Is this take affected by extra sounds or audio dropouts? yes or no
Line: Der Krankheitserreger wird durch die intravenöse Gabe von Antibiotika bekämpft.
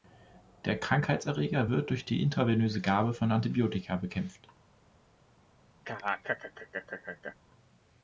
yes